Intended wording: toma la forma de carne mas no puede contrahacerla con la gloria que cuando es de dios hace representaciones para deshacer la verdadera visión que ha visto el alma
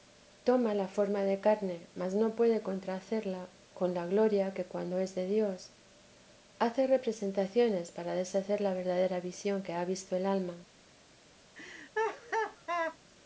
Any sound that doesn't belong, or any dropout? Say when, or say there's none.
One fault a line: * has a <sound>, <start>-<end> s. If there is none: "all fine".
* has a laugh, 11.5-13.0 s